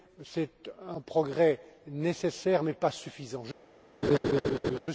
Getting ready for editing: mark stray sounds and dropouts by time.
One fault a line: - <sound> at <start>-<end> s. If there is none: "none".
- laugh at 4.0-4.8 s